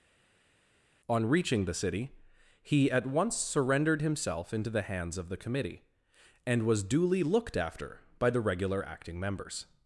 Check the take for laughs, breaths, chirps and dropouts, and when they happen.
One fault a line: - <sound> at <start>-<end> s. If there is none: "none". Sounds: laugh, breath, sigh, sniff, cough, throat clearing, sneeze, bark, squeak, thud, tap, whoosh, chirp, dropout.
none